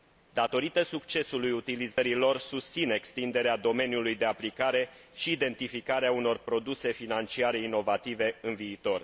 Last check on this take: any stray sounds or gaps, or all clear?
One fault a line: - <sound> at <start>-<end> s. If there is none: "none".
- dropout at 1.9-2.0 s